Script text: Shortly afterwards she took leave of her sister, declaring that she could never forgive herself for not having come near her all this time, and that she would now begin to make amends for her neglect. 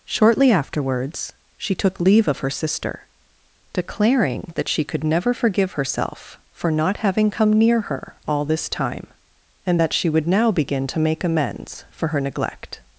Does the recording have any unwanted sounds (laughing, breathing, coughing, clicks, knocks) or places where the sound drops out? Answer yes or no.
no